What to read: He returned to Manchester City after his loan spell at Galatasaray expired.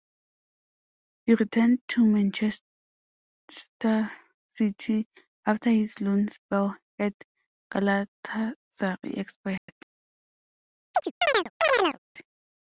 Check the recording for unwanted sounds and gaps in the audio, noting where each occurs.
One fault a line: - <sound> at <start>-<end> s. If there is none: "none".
- dropout at 9.6-9.7 s
- chirp at 10.9-12.0 s